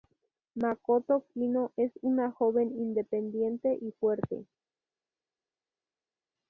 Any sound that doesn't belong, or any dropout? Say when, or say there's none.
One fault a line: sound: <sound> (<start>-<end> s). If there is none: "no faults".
no faults